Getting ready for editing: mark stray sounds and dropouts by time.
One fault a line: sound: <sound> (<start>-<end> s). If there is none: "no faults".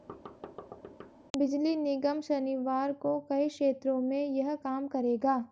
sound: thud (0.1-1.1 s)